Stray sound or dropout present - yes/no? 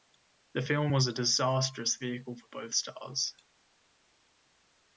no